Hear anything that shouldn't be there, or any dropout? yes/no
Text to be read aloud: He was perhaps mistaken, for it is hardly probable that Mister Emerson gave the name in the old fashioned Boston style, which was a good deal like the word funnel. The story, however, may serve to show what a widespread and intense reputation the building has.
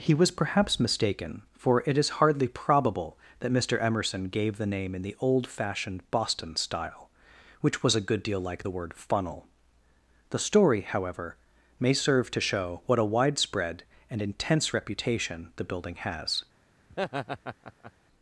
yes